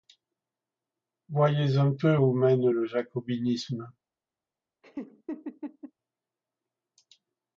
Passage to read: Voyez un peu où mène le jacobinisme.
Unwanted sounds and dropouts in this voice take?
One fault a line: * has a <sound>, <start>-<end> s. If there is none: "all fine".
* has a laugh, 4.8-5.9 s